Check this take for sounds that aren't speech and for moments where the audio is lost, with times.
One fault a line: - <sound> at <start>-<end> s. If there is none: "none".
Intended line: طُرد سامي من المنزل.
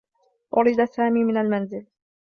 none